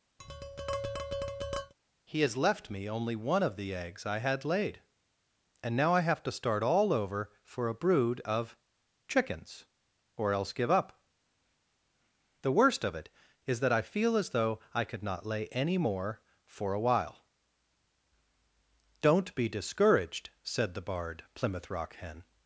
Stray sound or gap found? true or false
true